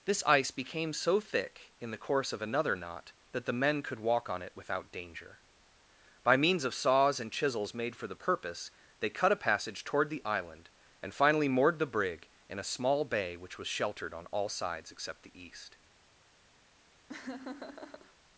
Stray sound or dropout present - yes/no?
yes